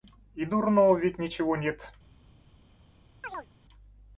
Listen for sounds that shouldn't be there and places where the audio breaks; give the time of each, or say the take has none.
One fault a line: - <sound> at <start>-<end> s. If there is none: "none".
- chirp at 3.2-3.5 s